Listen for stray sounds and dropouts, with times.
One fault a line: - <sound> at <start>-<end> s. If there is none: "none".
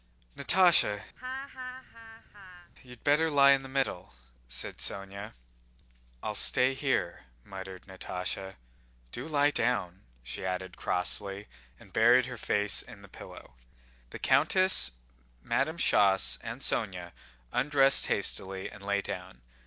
- laugh at 1.2-2.7 s